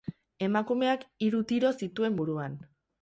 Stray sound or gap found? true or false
false